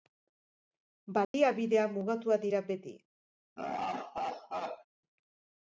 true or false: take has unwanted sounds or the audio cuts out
true